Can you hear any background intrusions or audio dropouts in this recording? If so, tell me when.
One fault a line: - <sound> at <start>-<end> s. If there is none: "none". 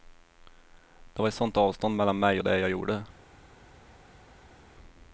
none